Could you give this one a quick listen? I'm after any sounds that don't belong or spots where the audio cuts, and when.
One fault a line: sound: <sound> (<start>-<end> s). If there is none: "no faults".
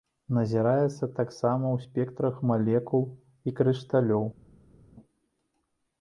no faults